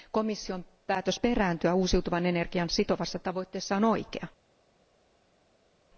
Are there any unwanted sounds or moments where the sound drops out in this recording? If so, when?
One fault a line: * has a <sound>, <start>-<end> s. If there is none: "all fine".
all fine